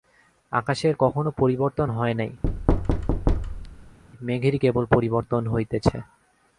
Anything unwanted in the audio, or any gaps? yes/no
yes